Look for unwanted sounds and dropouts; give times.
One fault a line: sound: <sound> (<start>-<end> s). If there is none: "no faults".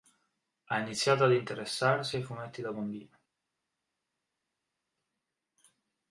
no faults